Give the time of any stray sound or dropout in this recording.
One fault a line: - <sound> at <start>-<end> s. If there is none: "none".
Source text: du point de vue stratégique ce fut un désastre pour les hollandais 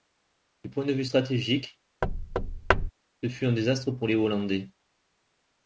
- thud at 2.0-2.9 s